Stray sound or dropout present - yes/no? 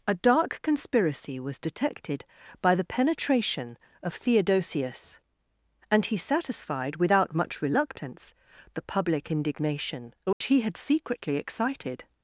yes